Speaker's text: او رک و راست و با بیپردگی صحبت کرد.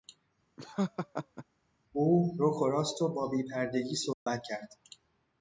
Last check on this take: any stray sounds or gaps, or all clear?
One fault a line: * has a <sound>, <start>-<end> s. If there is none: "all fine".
* has a laugh, 0.6-1.4 s
* has a dropout, 4.1-4.3 s